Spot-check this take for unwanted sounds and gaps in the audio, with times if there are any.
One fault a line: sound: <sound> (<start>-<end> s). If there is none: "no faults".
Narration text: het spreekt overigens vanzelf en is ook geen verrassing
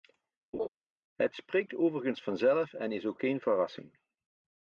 sound: laugh (0.5-0.7 s)